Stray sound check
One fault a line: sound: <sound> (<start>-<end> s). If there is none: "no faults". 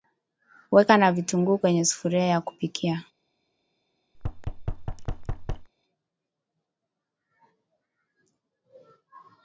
sound: thud (4.1-5.7 s)